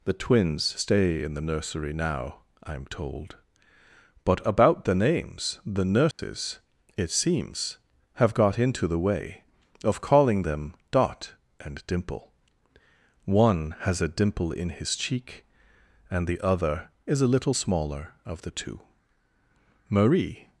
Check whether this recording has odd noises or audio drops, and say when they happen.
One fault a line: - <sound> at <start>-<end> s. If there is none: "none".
- dropout at 6.1-6.2 s